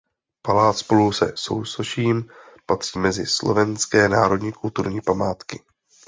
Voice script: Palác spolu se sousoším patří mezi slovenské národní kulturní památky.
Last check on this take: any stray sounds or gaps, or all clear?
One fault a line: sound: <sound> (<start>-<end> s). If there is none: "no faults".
no faults